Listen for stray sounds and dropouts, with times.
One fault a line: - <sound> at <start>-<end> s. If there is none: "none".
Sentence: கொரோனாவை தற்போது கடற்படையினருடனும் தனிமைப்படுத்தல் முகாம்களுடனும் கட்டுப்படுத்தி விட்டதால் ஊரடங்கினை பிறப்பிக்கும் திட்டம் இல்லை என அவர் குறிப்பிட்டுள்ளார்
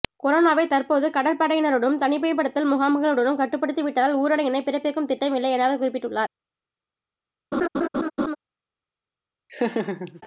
- laugh at 7.5-8.4 s
- laugh at 9.5-10.2 s